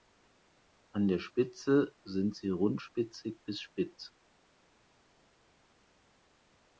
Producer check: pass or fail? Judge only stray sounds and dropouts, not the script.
pass